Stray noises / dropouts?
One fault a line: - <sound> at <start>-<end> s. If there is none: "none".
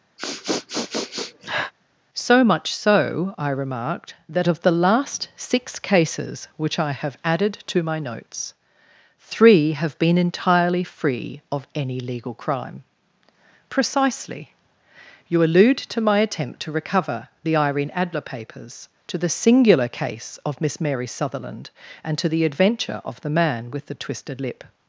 - sniff at 0.2-1.7 s